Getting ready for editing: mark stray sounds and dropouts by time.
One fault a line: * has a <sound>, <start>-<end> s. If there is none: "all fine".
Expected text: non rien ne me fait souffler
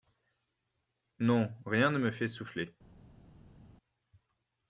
all fine